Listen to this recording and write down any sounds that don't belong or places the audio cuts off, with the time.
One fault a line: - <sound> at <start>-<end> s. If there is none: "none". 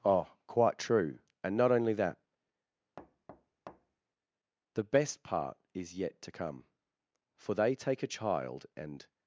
- thud at 3.0-4.0 s